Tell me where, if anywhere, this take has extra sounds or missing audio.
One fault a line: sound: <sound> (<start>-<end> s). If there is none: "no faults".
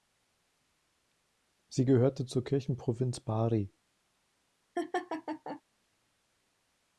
sound: laugh (4.8-5.6 s)